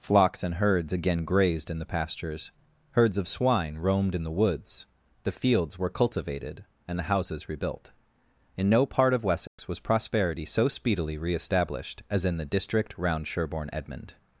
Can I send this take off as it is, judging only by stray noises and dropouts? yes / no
no